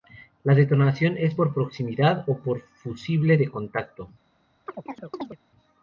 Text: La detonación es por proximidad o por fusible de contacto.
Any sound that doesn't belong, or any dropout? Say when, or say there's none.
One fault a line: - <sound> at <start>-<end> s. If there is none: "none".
- chirp at 4.7-5.4 s